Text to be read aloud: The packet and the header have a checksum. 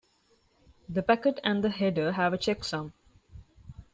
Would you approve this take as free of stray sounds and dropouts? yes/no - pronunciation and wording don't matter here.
yes